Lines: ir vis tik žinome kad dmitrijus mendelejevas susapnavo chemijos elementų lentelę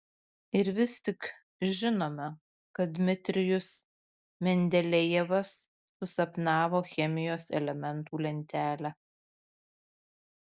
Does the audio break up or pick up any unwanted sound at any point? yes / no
no